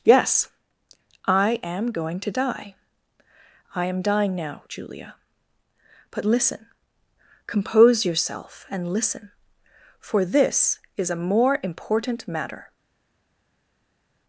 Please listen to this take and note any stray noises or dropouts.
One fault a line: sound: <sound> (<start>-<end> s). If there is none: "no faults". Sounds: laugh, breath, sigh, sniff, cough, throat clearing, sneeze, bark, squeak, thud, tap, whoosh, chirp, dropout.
no faults